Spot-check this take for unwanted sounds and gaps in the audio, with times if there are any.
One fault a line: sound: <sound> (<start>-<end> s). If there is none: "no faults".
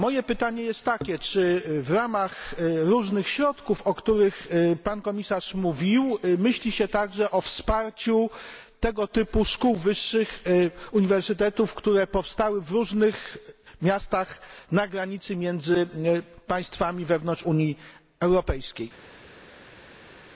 no faults